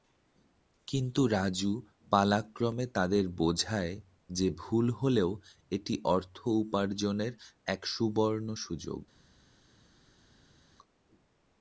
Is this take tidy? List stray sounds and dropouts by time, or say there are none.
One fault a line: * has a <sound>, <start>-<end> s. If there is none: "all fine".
all fine